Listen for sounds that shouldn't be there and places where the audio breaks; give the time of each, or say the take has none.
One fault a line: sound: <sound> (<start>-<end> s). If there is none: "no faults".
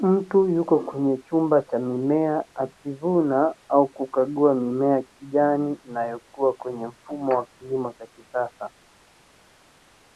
no faults